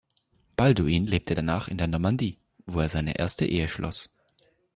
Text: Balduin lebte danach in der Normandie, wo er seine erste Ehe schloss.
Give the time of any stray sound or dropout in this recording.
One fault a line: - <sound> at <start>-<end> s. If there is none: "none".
none